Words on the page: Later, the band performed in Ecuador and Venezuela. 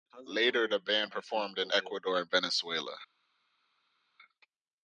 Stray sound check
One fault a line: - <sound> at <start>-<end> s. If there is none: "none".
none